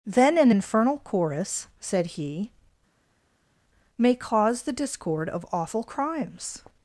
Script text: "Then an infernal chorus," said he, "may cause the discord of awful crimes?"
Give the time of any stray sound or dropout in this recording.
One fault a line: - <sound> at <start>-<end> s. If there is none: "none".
none